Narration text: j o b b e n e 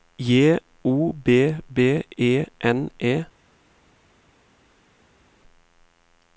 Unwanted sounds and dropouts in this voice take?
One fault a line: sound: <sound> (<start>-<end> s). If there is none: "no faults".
no faults